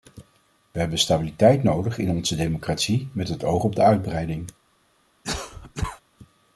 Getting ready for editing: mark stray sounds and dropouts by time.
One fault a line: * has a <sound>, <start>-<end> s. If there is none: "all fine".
* has a cough, 5.2-6.0 s